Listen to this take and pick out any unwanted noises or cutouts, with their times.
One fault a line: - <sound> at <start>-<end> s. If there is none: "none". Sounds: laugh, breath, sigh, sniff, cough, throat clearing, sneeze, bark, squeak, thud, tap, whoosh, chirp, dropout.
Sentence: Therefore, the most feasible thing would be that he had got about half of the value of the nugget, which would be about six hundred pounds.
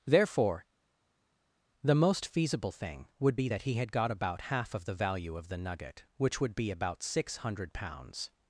none